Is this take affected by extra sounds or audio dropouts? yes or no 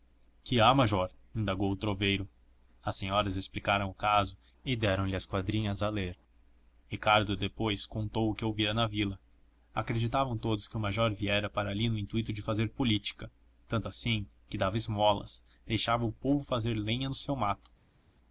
no